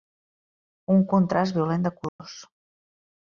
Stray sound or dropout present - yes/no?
yes